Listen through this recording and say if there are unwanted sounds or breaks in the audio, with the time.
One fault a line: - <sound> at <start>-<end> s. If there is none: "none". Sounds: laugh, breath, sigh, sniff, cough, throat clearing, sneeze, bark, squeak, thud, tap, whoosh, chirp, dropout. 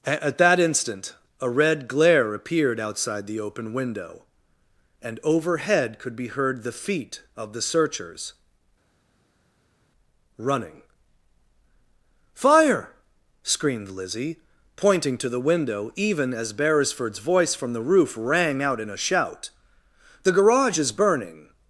none